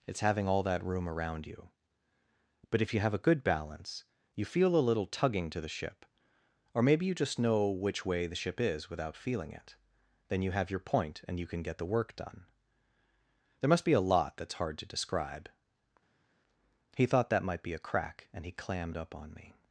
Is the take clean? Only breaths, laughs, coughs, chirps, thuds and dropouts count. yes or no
yes